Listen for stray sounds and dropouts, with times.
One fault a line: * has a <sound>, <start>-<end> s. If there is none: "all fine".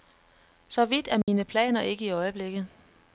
* has a dropout, 1.2-1.3 s